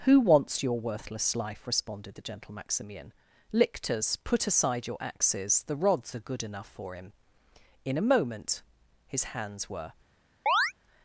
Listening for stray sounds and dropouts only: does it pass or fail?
fail